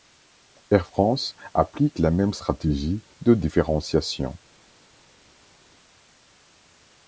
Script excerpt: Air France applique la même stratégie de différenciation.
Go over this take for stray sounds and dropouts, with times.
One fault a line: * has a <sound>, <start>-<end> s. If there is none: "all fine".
all fine